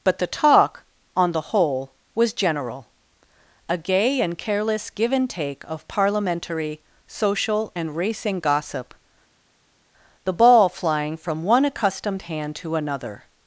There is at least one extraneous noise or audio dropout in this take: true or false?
false